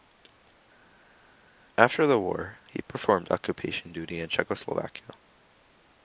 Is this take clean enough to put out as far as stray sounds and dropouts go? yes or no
yes